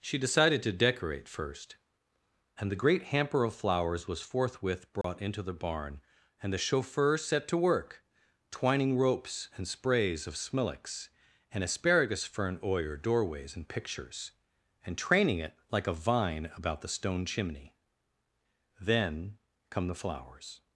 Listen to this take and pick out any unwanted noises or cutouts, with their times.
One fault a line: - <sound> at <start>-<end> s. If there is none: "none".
- dropout at 5.0-5.0 s